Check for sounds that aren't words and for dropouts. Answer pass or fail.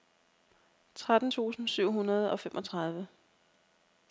pass